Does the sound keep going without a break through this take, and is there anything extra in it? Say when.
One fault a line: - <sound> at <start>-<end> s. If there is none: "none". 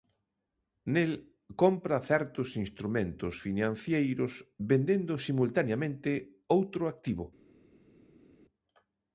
none